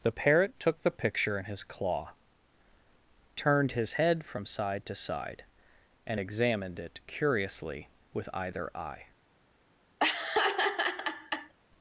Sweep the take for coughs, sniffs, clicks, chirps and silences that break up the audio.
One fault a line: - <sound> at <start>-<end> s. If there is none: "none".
- laugh at 10.0-11.5 s